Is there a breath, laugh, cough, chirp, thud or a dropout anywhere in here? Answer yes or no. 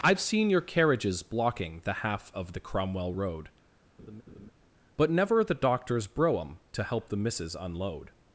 yes